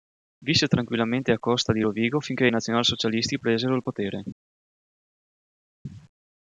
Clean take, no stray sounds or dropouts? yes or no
yes